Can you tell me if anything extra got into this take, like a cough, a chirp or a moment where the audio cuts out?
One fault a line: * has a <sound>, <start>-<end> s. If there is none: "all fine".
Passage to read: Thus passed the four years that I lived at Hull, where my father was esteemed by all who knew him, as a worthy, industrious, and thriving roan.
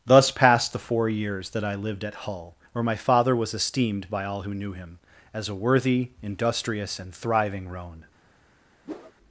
* has a whoosh, 8.8-9.1 s